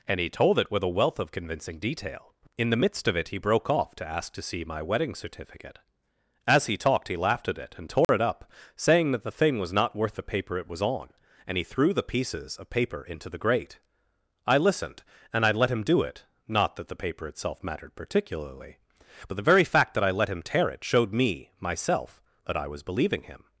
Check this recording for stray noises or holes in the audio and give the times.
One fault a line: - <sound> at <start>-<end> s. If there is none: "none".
- dropout at 8.0-8.1 s